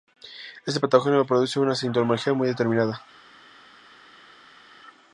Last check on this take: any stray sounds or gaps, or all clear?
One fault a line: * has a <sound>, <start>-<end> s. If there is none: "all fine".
all fine